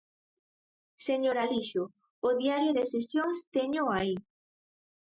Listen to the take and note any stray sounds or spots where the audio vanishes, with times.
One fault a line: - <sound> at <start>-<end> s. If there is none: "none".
none